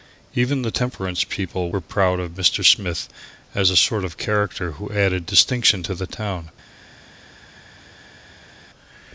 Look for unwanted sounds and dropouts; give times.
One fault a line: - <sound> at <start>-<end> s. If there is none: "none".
none